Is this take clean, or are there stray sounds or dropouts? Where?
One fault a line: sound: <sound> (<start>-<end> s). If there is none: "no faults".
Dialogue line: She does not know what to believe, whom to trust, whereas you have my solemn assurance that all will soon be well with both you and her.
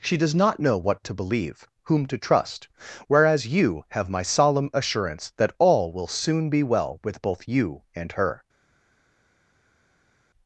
no faults